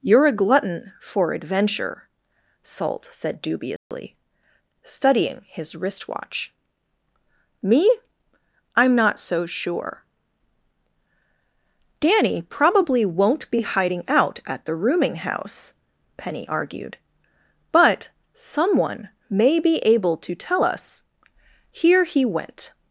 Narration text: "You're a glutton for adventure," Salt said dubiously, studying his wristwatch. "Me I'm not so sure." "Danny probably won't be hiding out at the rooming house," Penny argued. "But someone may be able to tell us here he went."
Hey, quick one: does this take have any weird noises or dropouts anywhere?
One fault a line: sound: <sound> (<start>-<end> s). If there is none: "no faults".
sound: dropout (3.8-3.9 s)